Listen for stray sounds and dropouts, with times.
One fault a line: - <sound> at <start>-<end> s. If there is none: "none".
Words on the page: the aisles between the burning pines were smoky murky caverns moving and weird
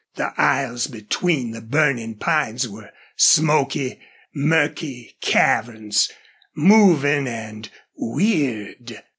none